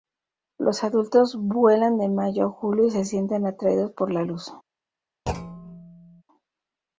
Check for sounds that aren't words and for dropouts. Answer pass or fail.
fail